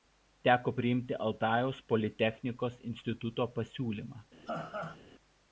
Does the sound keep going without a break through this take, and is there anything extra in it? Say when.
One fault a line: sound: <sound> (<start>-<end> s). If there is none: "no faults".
sound: laugh (4.5-5.0 s)